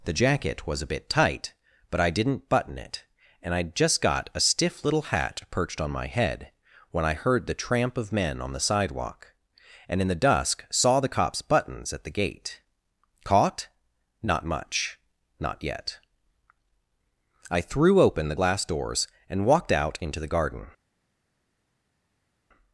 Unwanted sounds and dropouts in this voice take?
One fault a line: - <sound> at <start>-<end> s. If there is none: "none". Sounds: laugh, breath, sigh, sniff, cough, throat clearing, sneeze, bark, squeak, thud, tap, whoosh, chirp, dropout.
none